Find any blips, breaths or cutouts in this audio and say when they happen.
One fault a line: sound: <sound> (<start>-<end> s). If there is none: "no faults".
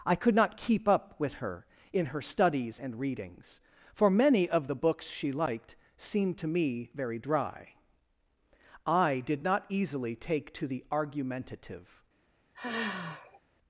sound: sigh (12.5-13.4 s)